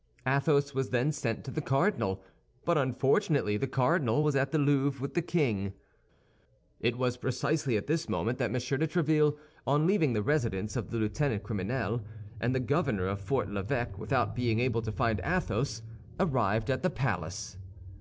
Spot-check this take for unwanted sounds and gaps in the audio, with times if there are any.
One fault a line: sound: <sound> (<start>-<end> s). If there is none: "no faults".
no faults